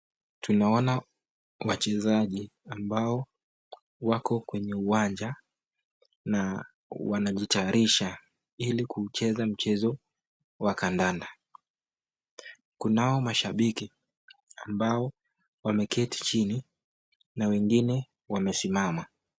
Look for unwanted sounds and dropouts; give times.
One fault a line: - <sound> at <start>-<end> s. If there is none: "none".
none